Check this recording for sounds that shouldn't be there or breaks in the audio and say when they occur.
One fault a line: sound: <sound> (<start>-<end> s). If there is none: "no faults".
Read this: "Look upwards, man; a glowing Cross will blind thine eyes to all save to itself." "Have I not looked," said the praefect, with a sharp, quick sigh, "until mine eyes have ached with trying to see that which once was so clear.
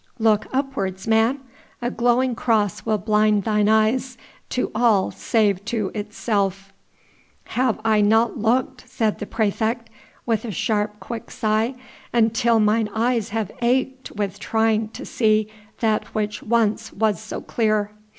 no faults